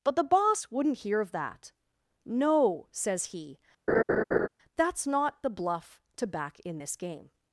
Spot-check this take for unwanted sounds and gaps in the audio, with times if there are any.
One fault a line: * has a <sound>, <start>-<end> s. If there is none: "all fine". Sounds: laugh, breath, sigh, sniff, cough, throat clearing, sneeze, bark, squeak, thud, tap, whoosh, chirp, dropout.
* has a laugh, 3.9-4.5 s